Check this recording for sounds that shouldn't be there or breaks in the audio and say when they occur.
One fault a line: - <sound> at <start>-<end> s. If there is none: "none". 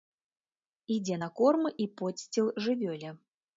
none